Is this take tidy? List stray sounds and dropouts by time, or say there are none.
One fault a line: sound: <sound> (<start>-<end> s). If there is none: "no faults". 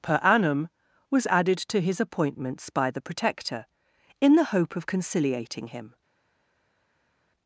no faults